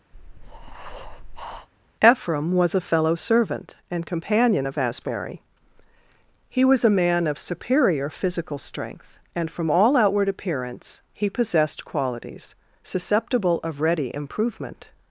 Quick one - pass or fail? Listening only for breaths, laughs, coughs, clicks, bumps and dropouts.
fail